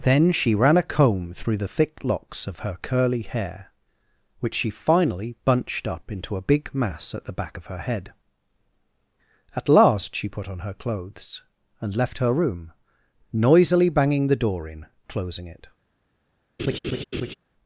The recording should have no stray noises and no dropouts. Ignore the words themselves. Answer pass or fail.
fail